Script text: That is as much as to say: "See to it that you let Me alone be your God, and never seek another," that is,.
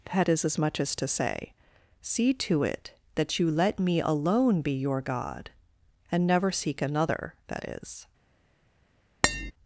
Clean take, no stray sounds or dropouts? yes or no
no